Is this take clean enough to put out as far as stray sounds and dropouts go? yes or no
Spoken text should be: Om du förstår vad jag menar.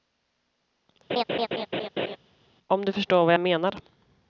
no